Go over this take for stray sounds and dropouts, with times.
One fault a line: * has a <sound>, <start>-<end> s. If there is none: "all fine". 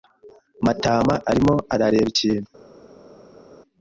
all fine